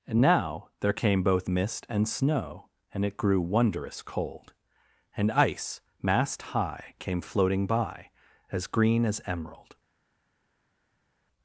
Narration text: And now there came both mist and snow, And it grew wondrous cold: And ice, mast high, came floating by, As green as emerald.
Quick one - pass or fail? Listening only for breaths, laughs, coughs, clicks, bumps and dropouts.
pass